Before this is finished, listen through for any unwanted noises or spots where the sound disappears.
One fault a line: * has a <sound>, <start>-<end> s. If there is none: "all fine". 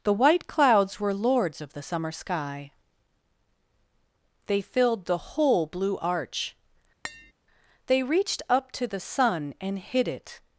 * has a tap, 7.0-7.3 s